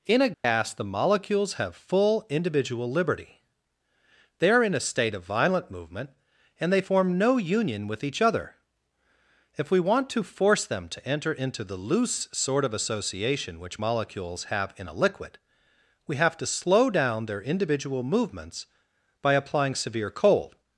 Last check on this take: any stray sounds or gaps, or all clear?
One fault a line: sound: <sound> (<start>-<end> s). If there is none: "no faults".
sound: dropout (0.3-0.4 s)